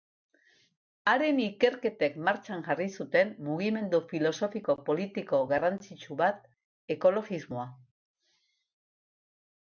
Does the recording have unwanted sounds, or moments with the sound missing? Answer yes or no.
no